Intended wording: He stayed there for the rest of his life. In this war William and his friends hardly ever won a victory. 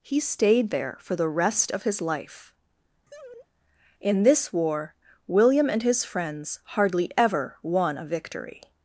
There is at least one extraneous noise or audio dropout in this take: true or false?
true